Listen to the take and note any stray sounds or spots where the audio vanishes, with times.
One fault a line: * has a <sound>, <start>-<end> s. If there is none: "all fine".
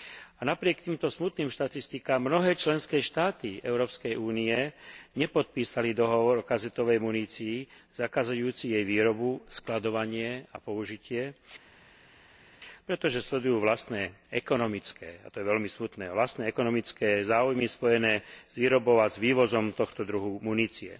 all fine